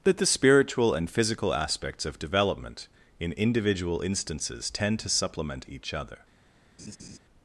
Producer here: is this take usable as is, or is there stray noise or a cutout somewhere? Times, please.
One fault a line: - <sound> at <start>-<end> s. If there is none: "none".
- laugh at 6.8-7.2 s